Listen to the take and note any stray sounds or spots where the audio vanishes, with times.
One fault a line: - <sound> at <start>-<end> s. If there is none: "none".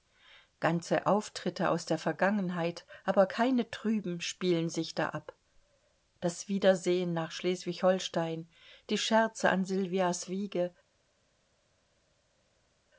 none